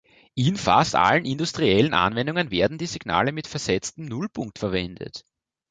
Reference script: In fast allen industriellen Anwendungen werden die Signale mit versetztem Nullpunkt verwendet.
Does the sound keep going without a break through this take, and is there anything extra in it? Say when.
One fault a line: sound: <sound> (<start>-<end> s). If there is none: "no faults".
no faults